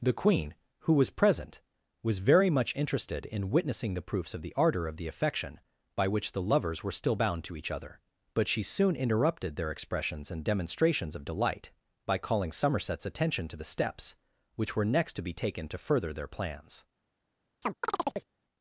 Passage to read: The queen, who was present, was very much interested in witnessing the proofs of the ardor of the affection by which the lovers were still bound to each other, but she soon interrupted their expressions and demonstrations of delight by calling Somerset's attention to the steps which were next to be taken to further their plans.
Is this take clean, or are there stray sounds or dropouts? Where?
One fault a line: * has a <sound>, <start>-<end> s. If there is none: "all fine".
* has a chirp, 17.6-18.3 s